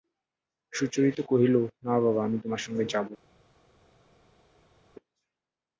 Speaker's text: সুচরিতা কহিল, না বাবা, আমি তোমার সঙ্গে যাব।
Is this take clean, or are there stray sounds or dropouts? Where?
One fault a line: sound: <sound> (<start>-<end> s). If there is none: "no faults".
no faults